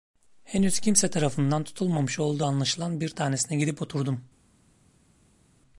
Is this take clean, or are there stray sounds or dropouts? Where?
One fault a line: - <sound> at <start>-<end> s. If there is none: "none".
none